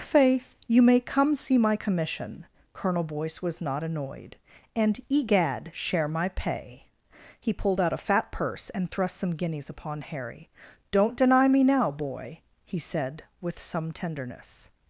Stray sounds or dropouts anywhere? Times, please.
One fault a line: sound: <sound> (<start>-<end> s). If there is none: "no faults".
no faults